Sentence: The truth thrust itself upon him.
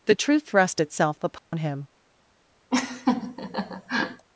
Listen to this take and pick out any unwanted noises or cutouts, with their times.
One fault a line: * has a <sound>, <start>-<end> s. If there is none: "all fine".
* has a dropout, 1.4-1.5 s
* has a laugh, 2.7-4.3 s